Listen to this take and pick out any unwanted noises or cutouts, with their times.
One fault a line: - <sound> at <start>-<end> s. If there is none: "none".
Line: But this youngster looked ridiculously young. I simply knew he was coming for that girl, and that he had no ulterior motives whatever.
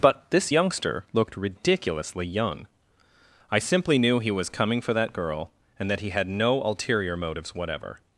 none